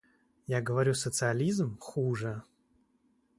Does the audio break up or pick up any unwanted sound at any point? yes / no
no